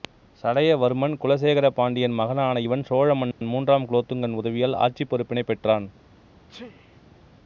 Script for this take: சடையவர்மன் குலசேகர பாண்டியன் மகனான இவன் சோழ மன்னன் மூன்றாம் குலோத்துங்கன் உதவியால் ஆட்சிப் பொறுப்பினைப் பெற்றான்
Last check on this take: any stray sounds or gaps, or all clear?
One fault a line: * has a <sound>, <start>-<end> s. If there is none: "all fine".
* has a dropout, 3.3-3.4 s
* has a sneeze, 6.5-7.3 s